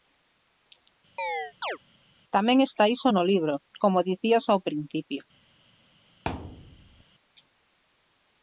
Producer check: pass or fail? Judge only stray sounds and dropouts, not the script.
fail